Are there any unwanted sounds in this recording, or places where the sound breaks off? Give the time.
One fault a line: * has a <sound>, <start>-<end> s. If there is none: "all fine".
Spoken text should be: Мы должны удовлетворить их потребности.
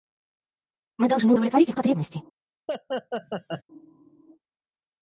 * has a laugh, 2.7-3.6 s